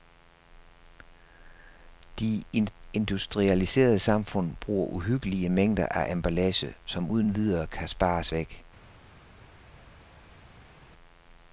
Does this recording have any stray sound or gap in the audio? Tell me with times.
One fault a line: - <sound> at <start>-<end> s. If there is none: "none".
none